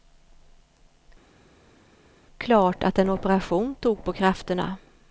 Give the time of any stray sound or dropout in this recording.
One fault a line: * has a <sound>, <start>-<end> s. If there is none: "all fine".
all fine